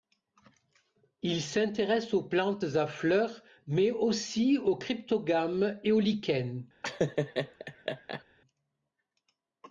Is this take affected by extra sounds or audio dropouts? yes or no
yes